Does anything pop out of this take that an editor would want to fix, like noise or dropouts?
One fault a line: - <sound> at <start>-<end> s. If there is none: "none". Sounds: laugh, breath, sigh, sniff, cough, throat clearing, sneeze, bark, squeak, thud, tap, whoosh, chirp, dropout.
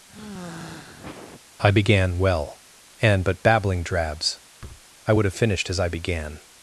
- sigh at 0.1-1.4 s
- thud at 4.6-4.9 s